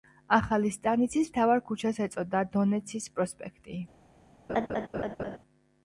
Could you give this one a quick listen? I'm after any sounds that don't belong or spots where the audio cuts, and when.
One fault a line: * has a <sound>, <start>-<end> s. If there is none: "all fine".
* has a laugh, 4.5-5.4 s